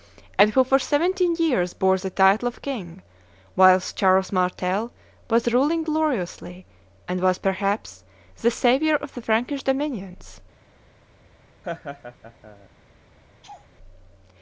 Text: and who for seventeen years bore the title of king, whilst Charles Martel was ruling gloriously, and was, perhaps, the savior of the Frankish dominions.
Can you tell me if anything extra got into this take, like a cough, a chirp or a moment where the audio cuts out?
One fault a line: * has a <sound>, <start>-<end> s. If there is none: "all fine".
* has a laugh, 11.6-12.7 s
* has a laugh, 13.4-13.7 s